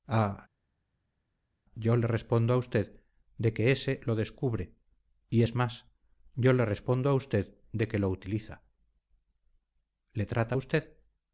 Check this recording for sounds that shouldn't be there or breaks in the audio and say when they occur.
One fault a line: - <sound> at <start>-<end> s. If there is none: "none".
none